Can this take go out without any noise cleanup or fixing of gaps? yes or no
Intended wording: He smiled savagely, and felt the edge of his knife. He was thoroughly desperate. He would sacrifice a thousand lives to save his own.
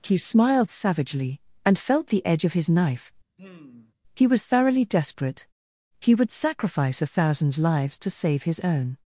no